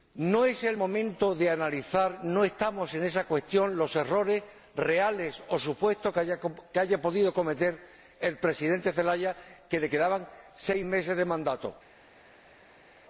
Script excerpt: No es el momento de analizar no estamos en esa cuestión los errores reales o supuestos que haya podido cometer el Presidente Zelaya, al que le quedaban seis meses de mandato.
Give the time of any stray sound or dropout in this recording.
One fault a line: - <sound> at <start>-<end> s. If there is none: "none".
none